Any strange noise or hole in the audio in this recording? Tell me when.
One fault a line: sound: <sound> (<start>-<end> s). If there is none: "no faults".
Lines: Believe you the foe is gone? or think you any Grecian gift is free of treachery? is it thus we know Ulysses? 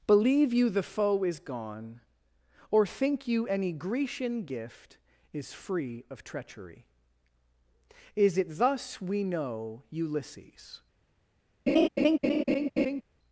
sound: laugh (11.7-13.0 s)